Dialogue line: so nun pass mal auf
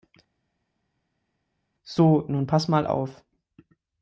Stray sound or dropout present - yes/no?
no